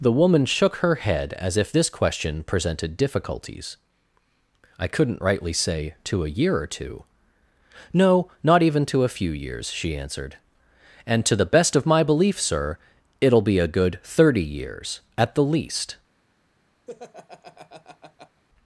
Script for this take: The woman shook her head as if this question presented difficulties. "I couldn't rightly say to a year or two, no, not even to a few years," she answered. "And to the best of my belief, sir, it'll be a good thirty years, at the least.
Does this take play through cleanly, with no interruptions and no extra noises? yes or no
no